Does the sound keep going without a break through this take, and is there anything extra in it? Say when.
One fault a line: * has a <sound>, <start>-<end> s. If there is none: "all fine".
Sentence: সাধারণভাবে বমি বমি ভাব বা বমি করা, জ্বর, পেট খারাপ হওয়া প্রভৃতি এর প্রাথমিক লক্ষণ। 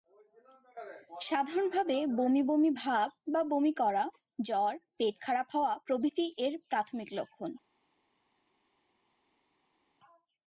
all fine